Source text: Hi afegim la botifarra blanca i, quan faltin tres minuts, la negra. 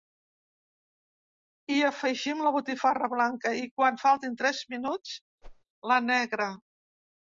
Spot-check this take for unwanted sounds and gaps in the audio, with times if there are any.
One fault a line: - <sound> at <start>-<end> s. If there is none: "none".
- whoosh at 5.4-5.6 s